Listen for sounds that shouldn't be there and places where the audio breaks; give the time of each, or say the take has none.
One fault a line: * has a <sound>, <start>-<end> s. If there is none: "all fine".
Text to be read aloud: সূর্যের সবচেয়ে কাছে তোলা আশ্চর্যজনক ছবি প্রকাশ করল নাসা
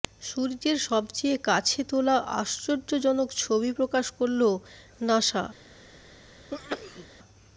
* has a sneeze, 6.5-7.1 s